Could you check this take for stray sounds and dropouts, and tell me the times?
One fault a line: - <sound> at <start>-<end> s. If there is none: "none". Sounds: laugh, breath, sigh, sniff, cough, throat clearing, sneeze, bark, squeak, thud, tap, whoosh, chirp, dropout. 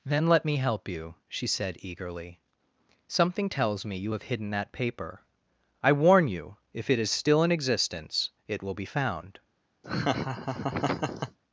- laugh at 9.8-11.4 s